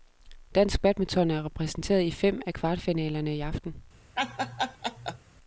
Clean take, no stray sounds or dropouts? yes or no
no